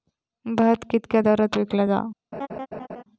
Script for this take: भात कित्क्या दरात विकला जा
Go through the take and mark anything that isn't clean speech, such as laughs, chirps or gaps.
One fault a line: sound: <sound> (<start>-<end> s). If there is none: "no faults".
sound: laugh (2.3-3.0 s)